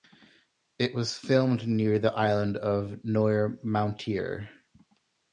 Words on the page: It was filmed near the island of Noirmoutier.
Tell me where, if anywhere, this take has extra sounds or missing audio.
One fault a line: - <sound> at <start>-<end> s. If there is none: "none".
none